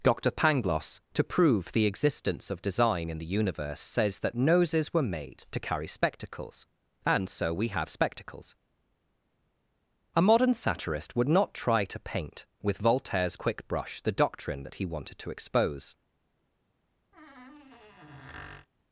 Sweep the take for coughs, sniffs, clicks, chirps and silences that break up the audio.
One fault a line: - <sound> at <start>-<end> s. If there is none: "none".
- squeak at 17.1-18.7 s